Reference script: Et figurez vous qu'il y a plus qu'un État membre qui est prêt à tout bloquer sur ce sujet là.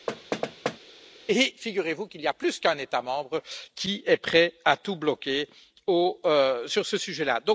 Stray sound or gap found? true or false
true